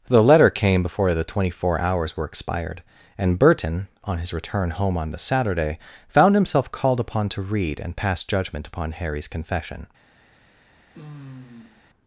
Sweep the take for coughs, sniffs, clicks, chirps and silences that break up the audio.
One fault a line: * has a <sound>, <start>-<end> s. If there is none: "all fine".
* has a sigh, 10.9-11.8 s